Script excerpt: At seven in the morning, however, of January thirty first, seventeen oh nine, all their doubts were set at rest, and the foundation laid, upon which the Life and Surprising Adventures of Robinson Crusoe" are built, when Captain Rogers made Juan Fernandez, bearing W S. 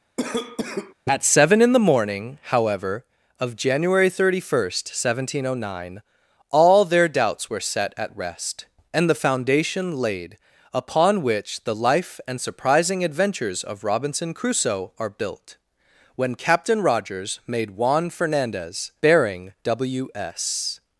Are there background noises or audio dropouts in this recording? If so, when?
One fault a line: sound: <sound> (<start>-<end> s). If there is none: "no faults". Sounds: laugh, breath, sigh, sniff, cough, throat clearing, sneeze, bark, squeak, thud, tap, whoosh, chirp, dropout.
sound: cough (0.2-0.9 s)